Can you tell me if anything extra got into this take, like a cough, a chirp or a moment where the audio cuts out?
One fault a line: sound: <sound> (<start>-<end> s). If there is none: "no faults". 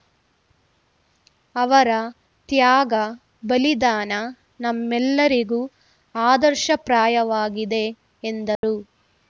sound: dropout (8.6-8.6 s)